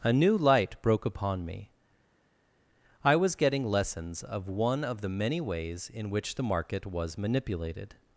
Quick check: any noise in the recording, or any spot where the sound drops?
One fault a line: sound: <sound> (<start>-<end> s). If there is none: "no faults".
no faults